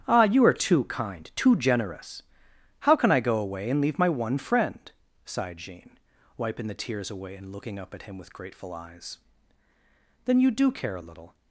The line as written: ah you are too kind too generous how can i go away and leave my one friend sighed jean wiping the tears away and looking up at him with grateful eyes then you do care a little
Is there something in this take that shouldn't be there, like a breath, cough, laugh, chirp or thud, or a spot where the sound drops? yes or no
no